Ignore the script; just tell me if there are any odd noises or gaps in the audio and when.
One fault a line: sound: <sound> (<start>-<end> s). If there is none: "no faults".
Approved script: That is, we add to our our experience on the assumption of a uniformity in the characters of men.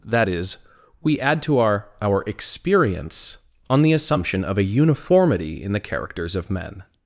no faults